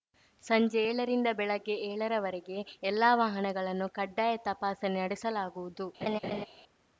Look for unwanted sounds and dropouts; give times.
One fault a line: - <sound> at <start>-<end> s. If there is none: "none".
- laugh at 6.0-6.5 s